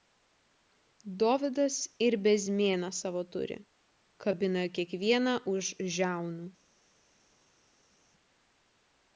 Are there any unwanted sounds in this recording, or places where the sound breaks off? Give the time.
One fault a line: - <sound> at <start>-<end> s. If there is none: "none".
none